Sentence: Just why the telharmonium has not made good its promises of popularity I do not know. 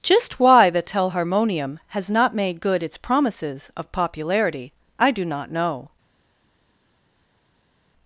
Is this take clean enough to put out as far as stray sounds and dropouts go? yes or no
yes